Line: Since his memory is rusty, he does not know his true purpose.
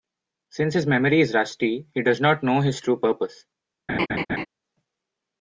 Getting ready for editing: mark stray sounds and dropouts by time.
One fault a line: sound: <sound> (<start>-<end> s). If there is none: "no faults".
sound: laugh (3.9-4.5 s)